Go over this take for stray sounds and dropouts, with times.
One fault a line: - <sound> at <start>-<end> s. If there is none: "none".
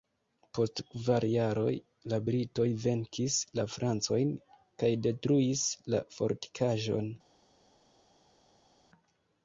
none